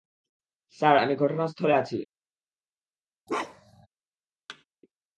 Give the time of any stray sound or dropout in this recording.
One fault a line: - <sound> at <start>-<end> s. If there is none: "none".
- bark at 3.3-3.9 s
- thud at 4.5-4.6 s